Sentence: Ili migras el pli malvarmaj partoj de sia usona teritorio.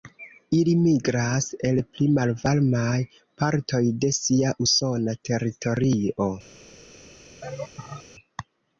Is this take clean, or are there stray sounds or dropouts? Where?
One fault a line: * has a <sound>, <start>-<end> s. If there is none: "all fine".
* has a laugh, 7.4-8.0 s